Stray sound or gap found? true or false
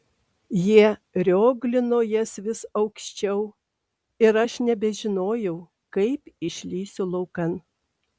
false